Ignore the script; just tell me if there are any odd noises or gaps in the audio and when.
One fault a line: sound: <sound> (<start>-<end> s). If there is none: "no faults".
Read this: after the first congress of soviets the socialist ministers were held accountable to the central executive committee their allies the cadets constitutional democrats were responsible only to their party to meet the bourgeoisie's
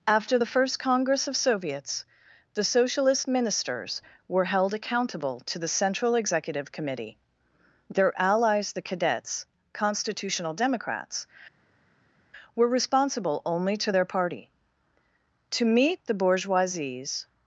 no faults